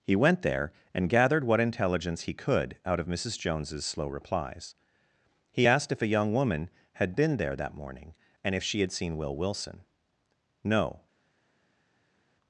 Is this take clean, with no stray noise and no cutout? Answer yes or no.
yes